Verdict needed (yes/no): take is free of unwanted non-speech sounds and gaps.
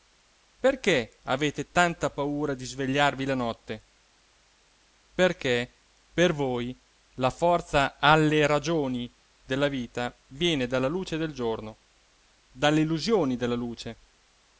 yes